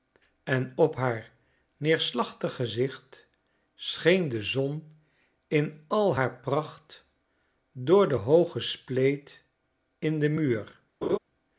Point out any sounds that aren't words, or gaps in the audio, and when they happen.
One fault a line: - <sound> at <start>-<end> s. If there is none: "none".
- laugh at 11.0-11.2 s